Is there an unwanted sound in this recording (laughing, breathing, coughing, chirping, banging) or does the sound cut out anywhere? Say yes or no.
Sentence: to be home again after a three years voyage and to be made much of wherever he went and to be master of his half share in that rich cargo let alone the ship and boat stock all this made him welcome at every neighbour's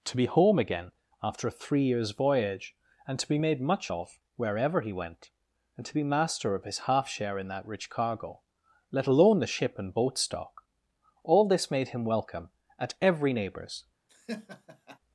yes